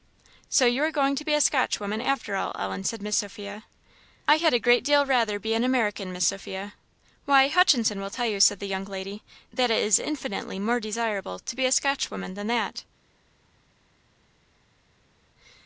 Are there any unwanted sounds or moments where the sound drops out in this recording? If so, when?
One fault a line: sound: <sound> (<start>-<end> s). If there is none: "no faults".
no faults